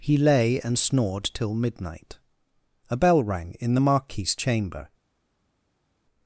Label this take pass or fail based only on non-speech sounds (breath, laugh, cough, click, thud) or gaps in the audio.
pass